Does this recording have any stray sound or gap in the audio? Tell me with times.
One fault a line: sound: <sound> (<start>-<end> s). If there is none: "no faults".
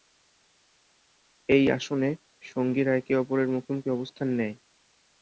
no faults